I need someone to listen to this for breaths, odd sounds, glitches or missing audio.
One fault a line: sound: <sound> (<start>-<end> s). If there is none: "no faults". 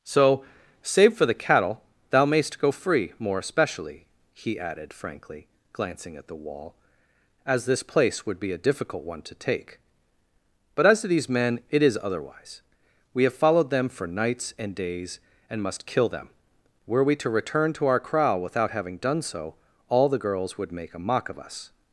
no faults